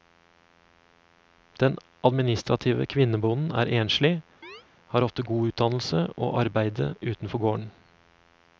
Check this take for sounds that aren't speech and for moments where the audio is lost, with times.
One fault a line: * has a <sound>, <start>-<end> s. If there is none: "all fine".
* has a chirp, 4.4-4.6 s